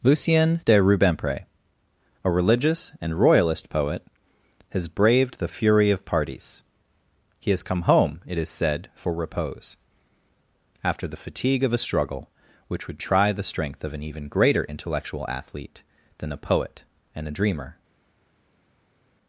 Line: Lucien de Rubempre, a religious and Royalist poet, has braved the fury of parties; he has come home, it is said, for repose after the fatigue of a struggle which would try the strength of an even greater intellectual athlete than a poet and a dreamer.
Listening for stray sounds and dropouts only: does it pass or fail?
pass